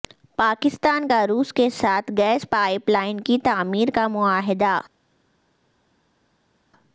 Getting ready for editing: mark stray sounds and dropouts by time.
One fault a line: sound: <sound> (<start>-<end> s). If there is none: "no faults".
no faults